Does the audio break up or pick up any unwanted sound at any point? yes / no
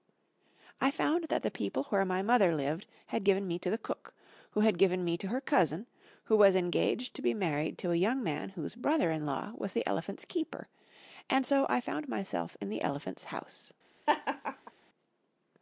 yes